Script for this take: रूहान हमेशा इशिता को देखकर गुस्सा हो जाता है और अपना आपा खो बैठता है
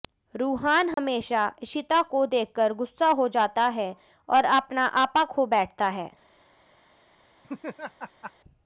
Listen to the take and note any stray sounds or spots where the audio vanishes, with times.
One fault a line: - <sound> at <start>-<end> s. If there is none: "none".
- dropout at 0.9-1.0 s
- laugh at 7.4-8.3 s